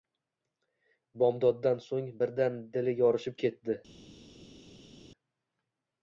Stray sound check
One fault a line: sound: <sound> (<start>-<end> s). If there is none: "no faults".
no faults